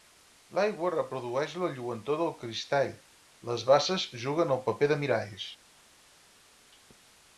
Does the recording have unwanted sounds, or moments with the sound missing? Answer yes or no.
no